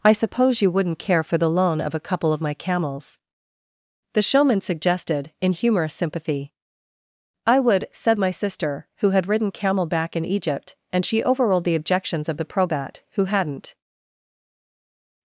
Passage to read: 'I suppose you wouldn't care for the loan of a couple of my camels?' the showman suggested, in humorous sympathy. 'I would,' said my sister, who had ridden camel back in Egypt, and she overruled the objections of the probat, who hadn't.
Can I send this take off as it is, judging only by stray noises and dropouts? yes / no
yes